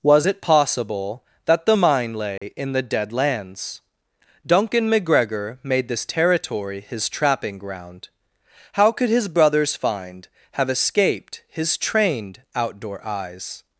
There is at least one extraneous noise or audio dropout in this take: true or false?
true